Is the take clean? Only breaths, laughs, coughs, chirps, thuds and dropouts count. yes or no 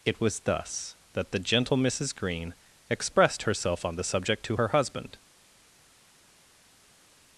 yes